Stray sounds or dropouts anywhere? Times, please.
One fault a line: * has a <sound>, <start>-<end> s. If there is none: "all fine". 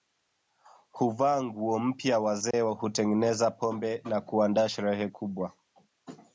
* has a dropout, 2.5-2.5 s